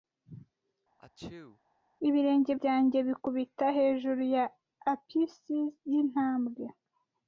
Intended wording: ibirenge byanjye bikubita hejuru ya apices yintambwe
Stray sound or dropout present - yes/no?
yes